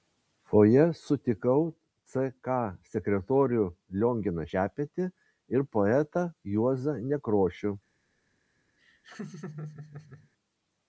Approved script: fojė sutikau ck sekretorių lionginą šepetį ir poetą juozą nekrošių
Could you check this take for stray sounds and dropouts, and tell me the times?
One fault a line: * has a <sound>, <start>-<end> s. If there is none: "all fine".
* has a laugh, 8.8-10.3 s